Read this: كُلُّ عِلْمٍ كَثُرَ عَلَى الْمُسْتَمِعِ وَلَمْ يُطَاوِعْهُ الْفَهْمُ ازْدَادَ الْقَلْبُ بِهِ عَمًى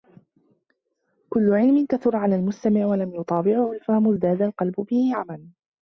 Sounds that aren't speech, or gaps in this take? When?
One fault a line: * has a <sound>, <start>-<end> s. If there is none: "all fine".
all fine